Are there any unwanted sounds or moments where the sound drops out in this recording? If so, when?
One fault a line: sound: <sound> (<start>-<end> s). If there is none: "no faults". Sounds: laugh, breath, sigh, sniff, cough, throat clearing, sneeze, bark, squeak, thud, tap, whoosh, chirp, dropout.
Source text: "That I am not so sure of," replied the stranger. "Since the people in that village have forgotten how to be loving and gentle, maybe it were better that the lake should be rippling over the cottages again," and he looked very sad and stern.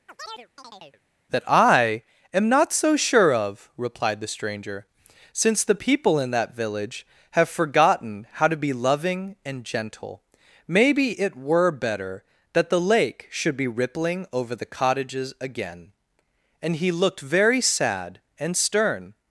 sound: chirp (0.1-1.0 s)